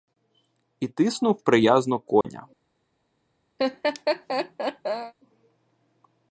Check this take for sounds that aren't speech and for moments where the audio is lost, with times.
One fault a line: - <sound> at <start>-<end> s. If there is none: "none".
- dropout at 2.2-2.2 s
- laugh at 3.6-5.1 s